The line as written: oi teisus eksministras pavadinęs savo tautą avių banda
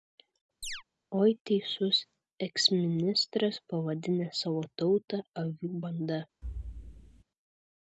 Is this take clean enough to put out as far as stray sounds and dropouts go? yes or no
no